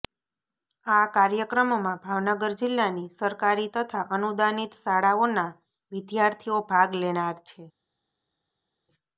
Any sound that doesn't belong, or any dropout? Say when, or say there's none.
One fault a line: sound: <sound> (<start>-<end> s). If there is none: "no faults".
no faults